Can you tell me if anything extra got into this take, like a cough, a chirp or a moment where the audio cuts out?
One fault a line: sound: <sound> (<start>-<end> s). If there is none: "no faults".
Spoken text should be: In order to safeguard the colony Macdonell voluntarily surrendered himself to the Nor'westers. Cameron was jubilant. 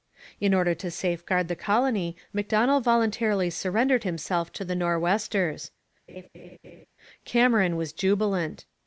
sound: laugh (6.1-6.9 s)